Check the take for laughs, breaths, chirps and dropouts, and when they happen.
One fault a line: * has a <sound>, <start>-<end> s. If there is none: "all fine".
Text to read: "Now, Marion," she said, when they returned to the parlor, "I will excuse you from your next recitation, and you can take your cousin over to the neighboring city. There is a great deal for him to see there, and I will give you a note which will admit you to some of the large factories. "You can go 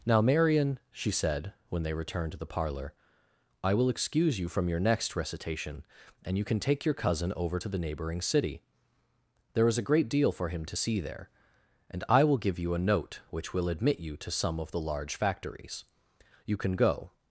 all fine